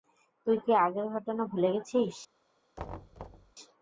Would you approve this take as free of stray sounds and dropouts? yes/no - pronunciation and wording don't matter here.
no